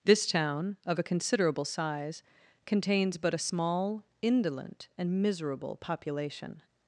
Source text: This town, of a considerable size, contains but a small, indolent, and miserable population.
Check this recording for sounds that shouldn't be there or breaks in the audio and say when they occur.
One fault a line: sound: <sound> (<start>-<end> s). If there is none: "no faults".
no faults